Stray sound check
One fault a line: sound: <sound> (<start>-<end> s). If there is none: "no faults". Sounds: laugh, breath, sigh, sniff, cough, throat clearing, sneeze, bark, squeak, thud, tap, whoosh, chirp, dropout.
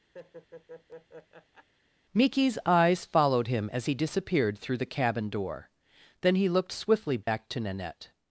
sound: laugh (0.1-1.7 s)
sound: dropout (7.2-7.3 s)